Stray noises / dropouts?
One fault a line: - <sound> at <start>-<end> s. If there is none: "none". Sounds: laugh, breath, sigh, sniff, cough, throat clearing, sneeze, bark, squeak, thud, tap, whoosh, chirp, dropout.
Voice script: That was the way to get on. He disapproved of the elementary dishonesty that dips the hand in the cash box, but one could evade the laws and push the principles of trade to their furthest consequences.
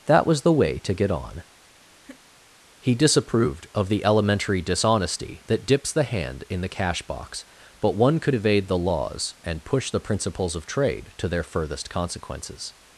- laugh at 2.0-2.2 s